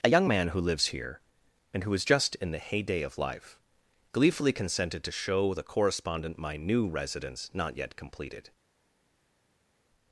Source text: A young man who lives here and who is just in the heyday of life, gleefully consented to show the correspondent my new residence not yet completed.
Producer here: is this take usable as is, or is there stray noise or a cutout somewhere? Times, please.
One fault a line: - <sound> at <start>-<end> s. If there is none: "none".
none